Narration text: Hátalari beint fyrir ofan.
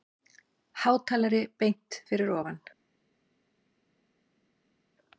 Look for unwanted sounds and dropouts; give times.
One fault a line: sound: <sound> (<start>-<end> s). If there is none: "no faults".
no faults